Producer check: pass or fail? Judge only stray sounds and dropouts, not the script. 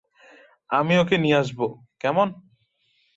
pass